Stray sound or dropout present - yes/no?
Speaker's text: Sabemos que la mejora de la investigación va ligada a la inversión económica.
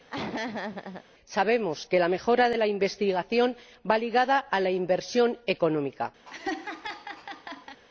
yes